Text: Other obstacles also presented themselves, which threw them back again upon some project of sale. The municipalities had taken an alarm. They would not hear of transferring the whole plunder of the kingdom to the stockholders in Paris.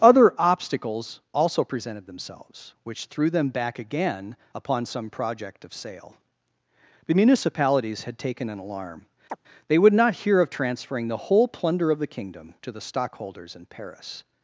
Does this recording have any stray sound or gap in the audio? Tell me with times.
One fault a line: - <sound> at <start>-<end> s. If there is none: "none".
- chirp at 9.3-9.4 s